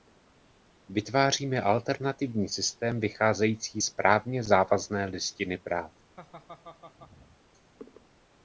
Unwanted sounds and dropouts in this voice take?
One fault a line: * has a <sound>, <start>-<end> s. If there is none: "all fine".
* has a laugh, 6.2-7.4 s